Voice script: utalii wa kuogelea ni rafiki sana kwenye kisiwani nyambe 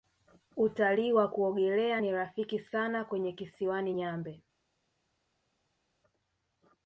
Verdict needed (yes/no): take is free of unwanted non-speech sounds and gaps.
yes